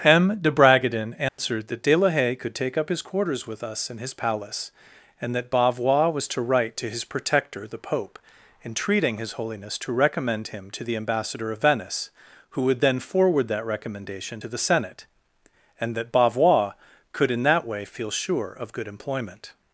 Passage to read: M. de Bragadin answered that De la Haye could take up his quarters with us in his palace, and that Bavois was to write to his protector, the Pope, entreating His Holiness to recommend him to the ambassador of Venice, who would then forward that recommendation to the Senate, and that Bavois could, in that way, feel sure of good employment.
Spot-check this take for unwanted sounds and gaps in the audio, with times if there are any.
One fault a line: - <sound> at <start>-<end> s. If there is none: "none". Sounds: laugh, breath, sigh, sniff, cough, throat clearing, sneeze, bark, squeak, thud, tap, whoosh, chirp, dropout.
- dropout at 1.3-1.4 s